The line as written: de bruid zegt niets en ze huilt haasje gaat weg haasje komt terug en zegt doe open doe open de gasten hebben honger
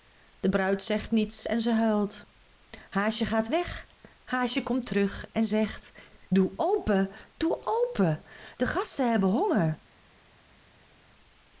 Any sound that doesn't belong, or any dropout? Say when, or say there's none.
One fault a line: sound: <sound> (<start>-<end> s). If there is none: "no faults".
no faults